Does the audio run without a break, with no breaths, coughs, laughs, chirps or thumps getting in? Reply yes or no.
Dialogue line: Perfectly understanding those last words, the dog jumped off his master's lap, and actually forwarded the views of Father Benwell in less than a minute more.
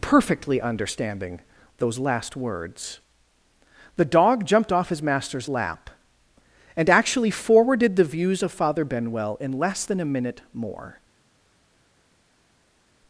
yes